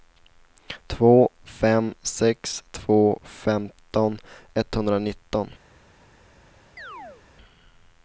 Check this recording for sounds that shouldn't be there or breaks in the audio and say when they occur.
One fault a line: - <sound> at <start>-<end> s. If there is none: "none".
- chirp at 6.8-7.2 s